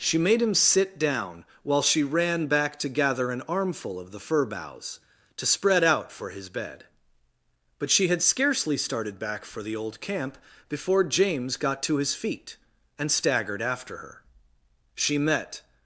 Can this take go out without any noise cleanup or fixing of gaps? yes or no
yes